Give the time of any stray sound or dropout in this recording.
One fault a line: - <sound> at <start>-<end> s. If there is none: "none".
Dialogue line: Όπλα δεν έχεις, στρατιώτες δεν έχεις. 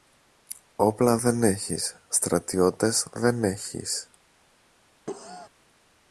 - cough at 5.1-5.5 s